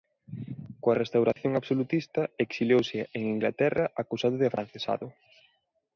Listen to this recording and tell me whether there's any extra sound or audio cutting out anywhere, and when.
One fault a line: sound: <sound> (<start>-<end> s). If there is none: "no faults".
sound: dropout (1.3-1.4 s)